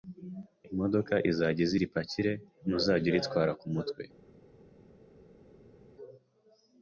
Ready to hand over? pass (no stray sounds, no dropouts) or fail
pass